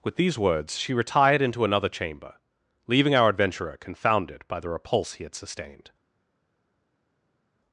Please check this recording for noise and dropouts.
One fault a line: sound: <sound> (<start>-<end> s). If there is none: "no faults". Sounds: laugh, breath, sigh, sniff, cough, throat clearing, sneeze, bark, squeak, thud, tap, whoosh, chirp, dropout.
no faults